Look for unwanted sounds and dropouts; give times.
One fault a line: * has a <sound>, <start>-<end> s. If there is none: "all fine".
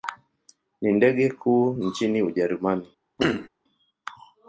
* has a throat clearing, 3.2-3.5 s